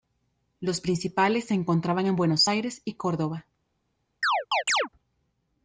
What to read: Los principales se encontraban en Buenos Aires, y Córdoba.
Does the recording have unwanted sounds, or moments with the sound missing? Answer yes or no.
yes